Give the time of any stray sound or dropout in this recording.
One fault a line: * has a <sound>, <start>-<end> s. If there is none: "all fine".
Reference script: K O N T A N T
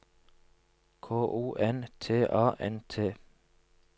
all fine